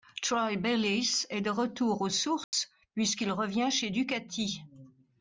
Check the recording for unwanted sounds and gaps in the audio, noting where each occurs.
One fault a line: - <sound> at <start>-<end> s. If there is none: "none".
- dropout at 2.4-2.5 s